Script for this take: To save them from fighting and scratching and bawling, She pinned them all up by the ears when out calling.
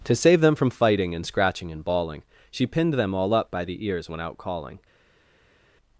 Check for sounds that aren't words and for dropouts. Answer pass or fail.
pass